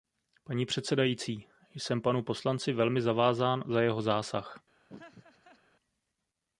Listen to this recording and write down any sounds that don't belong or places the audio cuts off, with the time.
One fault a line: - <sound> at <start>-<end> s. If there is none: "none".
- laugh at 4.9-5.6 s